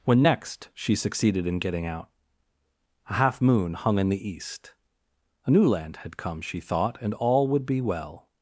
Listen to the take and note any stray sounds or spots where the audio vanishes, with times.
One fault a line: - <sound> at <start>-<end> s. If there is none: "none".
none